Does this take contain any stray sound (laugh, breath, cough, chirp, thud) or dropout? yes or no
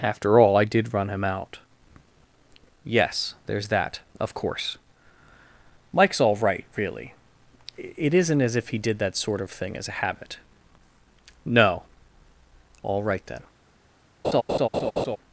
yes